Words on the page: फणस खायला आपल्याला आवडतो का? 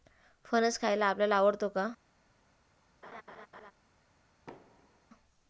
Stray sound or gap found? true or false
true